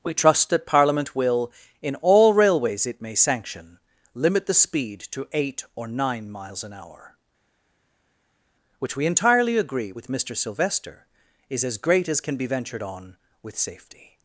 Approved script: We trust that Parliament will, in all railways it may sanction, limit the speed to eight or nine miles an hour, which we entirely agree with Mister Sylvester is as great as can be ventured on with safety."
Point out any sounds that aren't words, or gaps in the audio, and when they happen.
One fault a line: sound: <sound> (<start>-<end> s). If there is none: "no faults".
no faults